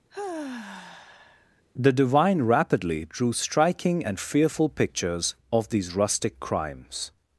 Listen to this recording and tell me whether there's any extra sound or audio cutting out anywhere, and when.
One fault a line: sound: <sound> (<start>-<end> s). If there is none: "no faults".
sound: sigh (0.1-1.6 s)